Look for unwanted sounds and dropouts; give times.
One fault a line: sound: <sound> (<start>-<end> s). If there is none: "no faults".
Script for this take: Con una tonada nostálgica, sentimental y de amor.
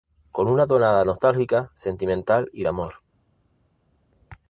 no faults